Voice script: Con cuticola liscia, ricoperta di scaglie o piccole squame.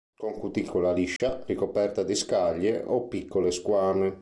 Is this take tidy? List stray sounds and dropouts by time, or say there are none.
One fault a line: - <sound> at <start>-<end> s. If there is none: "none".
- dropout at 1.2-1.2 s